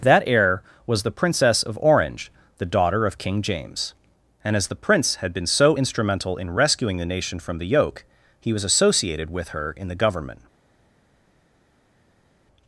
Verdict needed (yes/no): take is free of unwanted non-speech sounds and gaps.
yes